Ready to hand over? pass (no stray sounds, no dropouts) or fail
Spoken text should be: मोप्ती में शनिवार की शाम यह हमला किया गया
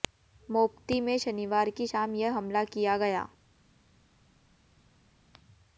pass